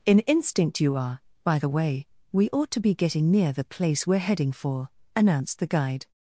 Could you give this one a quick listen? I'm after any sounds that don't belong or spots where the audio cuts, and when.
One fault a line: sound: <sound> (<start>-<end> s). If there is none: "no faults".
no faults